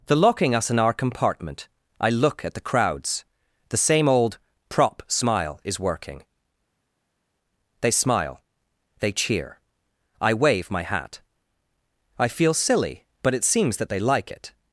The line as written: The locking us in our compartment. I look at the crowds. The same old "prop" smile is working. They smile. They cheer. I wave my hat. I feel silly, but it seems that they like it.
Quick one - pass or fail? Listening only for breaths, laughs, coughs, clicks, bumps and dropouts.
pass